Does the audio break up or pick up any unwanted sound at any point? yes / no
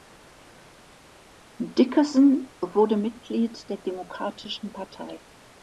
no